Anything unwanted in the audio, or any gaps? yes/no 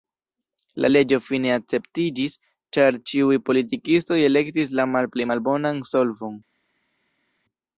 no